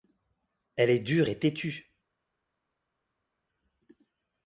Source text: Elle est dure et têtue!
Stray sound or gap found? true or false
false